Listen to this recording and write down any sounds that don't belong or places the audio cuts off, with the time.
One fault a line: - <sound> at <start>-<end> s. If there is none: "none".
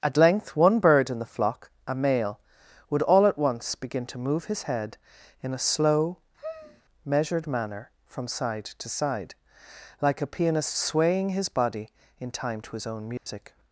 - sigh at 6.4-6.8 s
- dropout at 13.2-13.3 s